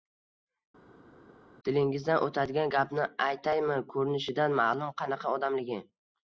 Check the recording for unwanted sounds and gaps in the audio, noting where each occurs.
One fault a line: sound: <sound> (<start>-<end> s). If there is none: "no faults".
no faults